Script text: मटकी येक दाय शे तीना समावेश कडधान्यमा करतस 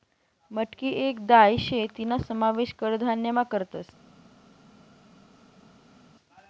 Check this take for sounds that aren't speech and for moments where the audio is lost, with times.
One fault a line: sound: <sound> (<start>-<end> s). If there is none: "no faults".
no faults